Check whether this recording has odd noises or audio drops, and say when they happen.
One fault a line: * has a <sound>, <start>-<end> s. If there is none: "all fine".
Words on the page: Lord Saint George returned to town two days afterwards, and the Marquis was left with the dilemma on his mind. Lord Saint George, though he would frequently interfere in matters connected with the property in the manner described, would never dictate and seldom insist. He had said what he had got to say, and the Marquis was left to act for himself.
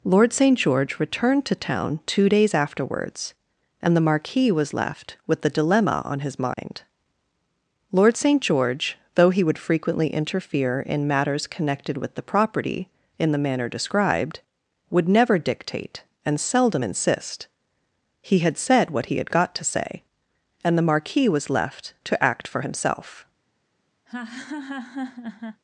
* has a dropout, 6.5-6.6 s
* has a laugh, 24.1-25.6 s